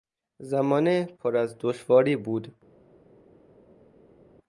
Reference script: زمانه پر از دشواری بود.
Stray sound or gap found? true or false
false